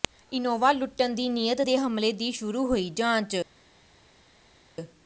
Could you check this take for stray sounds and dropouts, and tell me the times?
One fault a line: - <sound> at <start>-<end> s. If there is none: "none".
none